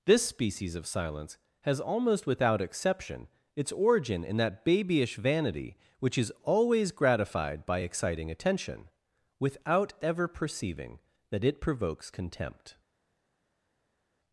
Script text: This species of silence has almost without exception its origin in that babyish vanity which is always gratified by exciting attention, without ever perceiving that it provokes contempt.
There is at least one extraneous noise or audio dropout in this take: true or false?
false